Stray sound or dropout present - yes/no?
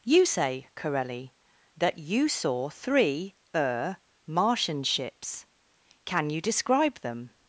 no